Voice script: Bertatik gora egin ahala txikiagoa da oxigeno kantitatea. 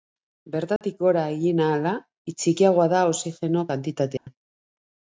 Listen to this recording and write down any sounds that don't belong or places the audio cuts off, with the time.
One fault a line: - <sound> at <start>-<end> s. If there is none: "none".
- dropout at 0.8-0.8 s
- dropout at 4.2-4.3 s